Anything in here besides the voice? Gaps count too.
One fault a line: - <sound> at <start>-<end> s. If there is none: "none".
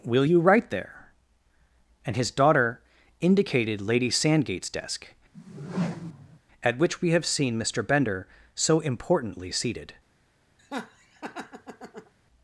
- whoosh at 5.3-6.4 s
- laugh at 10.6-12.1 s